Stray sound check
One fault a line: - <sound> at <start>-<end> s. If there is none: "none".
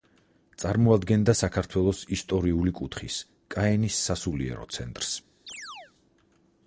- chirp at 5.5-5.9 s